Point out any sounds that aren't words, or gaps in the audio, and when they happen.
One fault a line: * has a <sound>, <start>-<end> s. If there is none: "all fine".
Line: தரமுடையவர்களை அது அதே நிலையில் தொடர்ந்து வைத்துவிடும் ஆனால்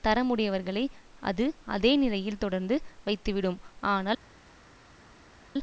all fine